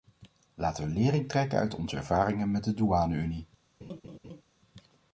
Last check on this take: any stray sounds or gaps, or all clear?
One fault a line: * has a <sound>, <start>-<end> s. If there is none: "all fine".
* has a laugh, 3.8-4.4 s